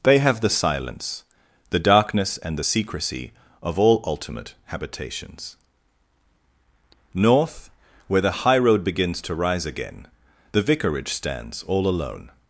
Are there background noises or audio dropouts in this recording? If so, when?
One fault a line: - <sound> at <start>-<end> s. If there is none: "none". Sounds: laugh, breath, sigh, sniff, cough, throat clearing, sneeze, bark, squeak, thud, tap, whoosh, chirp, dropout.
none